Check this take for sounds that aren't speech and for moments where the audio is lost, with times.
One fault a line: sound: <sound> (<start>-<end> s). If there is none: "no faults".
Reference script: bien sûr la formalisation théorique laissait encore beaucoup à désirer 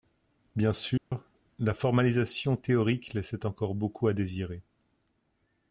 sound: dropout (1.0-1.1 s)